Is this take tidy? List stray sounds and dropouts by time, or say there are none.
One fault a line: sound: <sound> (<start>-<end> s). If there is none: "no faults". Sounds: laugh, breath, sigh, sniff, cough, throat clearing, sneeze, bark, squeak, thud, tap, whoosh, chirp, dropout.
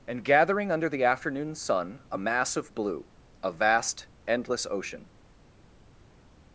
no faults